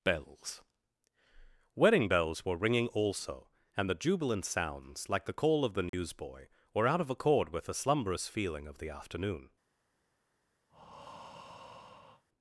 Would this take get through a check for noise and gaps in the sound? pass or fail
fail